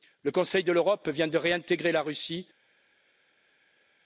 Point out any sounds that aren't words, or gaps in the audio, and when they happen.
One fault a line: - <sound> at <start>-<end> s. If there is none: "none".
none